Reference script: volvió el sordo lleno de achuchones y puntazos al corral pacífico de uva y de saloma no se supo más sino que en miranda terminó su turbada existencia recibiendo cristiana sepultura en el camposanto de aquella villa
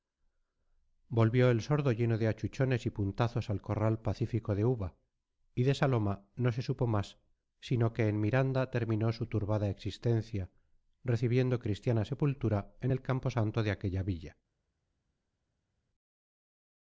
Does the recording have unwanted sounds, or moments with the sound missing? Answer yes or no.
no